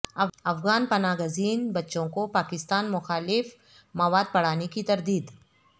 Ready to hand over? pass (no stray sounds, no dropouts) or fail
pass